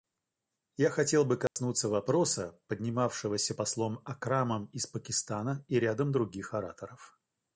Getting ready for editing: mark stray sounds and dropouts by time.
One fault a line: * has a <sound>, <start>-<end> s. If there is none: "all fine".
* has a dropout, 1.5-1.6 s